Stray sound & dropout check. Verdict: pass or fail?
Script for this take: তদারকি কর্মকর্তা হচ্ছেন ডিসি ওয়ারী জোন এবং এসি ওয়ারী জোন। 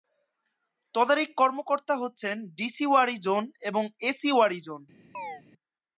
fail